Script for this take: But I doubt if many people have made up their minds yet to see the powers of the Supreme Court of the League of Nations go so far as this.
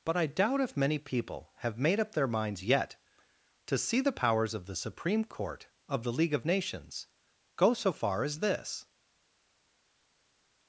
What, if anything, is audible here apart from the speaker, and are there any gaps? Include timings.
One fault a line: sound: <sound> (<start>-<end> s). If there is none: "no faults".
no faults